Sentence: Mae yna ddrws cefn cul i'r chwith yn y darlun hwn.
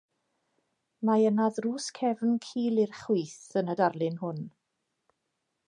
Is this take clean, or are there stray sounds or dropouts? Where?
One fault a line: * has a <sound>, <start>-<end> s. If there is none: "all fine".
all fine